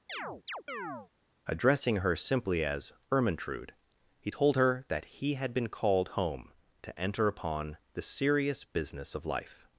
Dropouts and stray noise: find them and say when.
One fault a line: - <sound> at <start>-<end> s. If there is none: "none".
- chirp at 0.1-1.1 s